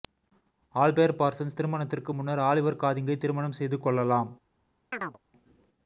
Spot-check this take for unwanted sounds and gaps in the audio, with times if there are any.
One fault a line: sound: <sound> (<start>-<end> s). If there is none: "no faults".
sound: chirp (4.9-5.2 s)